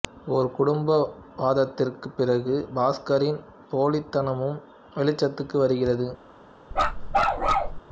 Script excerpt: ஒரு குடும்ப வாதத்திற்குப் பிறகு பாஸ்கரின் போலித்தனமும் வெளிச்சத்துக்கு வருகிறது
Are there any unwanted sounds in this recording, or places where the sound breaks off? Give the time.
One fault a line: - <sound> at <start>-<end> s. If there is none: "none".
- bark at 6.7-7.8 s